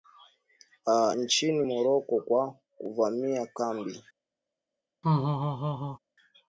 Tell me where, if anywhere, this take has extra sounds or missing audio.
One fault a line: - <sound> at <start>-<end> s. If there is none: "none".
- laugh at 5.0-6.0 s